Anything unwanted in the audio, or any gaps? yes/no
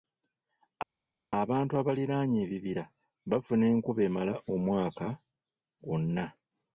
no